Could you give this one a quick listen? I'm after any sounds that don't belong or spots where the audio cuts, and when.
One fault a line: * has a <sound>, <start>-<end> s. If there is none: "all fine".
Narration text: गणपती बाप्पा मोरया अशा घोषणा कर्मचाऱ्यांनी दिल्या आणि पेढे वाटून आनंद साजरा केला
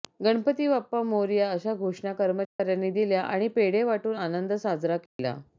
* has a dropout, 2.4-2.6 s
* has a dropout, 5.1-5.2 s